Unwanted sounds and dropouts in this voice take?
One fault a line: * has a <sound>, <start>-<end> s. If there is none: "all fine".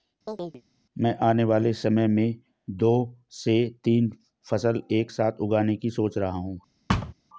* has a chirp, 0.3-0.6 s
* has a thud, 6.9-7.1 s